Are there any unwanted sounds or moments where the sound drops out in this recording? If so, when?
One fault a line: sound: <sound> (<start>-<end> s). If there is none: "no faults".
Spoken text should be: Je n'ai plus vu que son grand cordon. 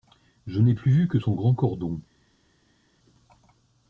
no faults